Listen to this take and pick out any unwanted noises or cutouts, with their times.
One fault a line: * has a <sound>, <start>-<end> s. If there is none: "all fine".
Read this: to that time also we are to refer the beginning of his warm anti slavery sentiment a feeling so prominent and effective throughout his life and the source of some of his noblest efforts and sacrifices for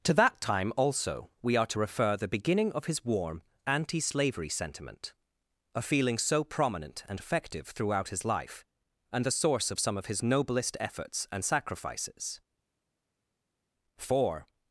all fine